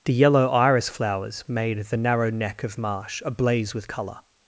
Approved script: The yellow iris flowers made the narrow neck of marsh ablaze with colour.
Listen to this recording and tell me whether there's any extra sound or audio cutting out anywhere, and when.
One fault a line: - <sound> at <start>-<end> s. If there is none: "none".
none